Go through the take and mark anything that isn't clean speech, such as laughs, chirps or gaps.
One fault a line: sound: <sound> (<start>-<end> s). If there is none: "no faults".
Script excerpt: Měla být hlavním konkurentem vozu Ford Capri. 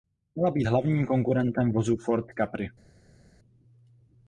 no faults